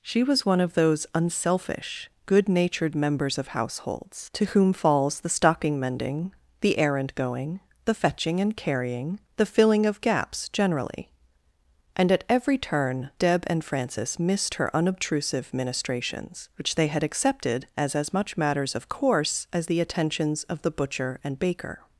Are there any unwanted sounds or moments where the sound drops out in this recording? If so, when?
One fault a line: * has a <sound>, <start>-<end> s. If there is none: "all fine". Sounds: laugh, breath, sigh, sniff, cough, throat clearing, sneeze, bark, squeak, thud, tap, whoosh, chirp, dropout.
all fine